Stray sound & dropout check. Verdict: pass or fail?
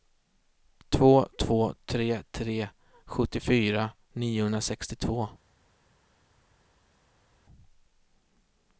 pass